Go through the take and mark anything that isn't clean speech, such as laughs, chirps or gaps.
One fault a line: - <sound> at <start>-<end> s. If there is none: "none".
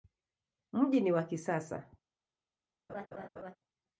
- laugh at 2.9-3.6 s